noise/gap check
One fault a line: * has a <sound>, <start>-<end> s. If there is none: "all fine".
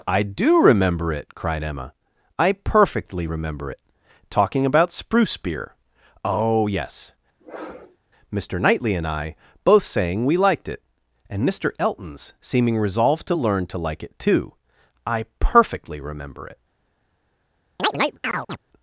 * has a sniff, 7.4-8.0 s
* has a chirp, 17.8-18.6 s